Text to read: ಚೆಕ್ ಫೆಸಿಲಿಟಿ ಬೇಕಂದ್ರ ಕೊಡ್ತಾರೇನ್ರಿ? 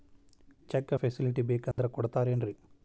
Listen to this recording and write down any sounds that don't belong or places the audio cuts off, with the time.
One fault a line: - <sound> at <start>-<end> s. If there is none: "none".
- dropout at 1.7-1.8 s